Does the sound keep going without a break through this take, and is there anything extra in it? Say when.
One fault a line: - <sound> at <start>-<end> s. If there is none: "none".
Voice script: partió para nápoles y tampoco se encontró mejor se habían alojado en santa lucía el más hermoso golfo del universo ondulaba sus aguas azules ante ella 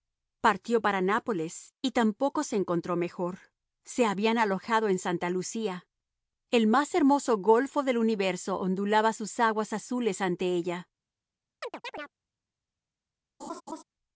- chirp at 11.6-12.1 s
- laugh at 13.4-13.8 s